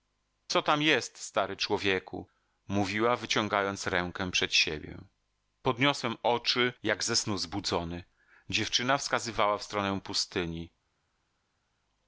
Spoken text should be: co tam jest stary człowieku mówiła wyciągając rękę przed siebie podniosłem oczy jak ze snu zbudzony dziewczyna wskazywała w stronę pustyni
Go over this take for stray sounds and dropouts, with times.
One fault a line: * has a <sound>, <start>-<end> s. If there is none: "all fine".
all fine